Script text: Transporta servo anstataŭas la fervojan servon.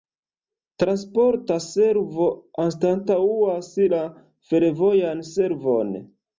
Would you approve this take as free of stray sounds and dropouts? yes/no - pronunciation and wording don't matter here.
yes